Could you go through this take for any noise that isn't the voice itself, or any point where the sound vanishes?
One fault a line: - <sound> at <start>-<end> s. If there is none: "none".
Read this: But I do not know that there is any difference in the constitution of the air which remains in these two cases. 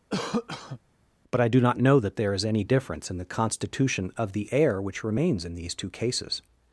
- cough at 0.1-0.8 s